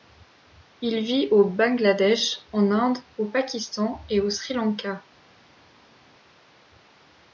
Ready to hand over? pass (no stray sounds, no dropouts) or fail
pass